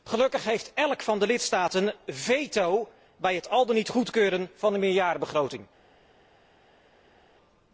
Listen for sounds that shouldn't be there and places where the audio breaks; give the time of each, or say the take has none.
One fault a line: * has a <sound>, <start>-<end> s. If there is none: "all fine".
all fine